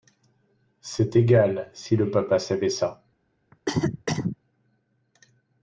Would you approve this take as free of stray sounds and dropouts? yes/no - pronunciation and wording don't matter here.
no